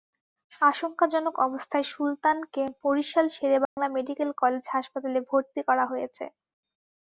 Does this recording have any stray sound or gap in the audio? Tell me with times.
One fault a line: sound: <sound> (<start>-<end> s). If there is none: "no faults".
sound: dropout (3.7-3.8 s)